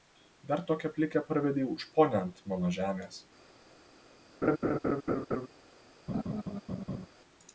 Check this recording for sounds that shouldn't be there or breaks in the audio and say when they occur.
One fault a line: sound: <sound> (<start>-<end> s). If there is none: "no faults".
sound: laugh (4.4-5.5 s)
sound: laugh (6.1-7.1 s)